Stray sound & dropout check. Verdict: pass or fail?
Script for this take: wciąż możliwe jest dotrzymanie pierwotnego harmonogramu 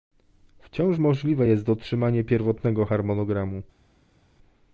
pass